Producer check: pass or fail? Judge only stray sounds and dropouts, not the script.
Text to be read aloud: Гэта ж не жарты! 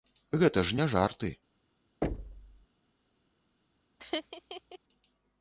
fail